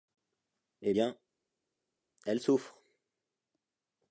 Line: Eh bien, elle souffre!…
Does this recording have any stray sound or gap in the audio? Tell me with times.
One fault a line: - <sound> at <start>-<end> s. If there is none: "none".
none